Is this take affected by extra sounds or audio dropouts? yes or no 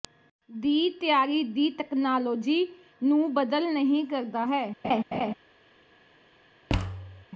yes